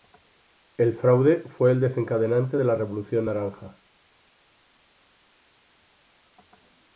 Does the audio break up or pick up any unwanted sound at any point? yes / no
no